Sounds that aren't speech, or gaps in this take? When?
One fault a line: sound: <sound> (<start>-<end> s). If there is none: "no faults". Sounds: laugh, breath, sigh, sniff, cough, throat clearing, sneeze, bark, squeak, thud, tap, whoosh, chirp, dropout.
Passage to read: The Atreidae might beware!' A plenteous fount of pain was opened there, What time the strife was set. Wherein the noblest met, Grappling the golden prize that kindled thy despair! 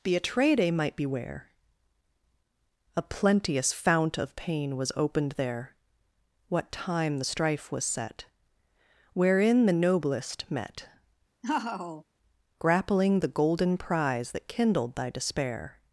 sound: laugh (11.4-12.0 s)